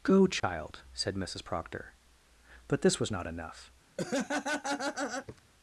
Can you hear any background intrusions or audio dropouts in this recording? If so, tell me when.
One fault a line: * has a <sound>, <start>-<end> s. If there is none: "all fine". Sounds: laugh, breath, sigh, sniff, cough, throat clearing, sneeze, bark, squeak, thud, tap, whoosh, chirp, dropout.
* has a dropout, 0.4-0.4 s
* has a laugh, 4.0-5.4 s